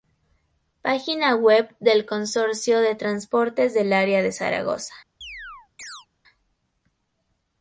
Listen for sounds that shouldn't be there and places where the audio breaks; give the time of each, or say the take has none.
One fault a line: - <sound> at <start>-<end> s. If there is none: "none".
- chirp at 5.2-6.1 s